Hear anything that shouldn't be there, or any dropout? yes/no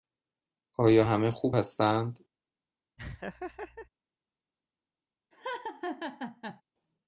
yes